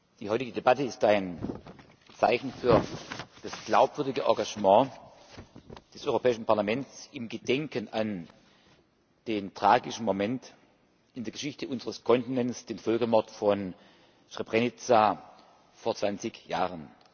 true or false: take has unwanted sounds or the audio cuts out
false